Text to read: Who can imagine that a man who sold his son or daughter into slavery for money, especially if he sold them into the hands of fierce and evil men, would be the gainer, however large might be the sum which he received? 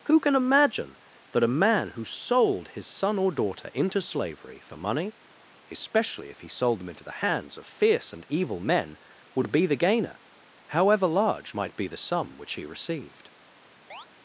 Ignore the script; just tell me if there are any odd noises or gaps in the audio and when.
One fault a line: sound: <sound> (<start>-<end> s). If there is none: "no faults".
sound: chirp (13.9-14.1 s)